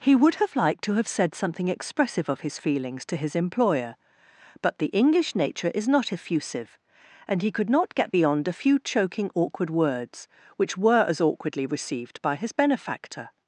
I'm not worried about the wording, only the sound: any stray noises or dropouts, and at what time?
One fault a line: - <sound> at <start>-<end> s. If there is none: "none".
none